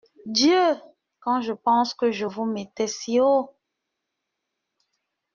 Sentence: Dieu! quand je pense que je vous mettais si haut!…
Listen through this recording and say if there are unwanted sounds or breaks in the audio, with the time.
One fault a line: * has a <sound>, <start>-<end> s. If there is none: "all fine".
all fine